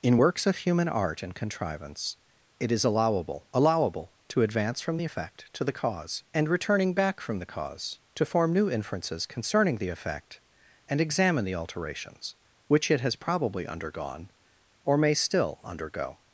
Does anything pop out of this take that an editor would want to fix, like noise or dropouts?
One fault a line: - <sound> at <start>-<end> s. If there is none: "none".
none